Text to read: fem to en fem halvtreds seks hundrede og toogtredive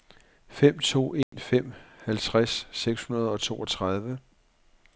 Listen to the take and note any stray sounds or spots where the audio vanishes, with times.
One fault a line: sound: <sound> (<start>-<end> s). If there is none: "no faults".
sound: dropout (1.2-1.3 s)